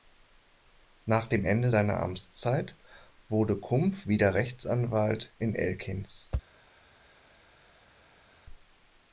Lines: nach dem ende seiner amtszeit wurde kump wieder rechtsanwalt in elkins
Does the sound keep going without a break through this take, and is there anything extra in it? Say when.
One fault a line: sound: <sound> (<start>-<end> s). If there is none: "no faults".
no faults